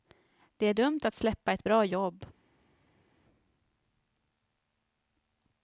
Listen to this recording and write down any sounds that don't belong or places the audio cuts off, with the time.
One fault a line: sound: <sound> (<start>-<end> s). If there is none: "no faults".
no faults